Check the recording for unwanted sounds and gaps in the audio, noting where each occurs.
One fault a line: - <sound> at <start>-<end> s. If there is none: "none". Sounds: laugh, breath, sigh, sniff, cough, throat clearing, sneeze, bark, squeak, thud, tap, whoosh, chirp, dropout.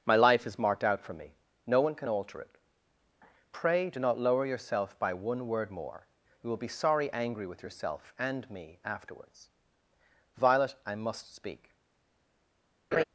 - laugh at 12.9-13.0 s